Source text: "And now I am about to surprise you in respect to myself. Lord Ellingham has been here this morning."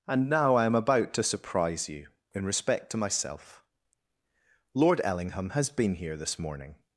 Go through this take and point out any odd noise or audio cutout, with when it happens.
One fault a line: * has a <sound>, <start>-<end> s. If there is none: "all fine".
all fine